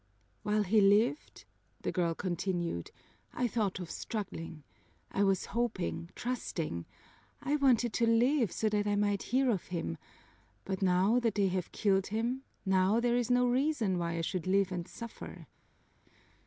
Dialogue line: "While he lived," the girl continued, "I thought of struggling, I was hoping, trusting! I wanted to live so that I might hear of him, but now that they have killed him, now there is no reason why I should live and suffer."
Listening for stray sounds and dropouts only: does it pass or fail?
pass